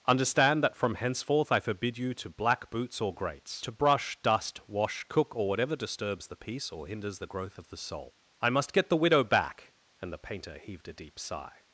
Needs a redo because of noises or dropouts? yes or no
no